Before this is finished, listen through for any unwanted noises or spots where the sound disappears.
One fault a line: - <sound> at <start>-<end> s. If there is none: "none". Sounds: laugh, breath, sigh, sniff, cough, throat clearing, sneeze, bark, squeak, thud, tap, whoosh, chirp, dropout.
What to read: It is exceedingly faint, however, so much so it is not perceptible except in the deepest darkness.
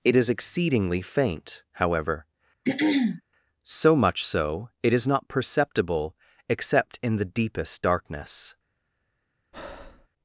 - throat clearing at 2.6-3.2 s
- breath at 9.5-10.1 s